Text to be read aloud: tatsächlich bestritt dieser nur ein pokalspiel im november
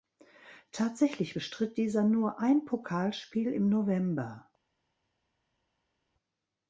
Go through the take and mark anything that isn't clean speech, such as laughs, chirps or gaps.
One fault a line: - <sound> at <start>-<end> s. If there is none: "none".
none